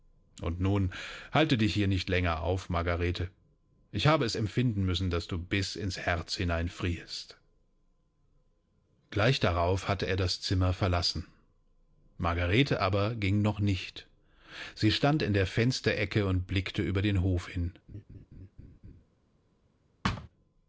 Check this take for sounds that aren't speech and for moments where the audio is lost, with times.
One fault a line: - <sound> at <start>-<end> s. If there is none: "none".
- laugh at 17.9-19.0 s
- thud at 20.0-20.3 s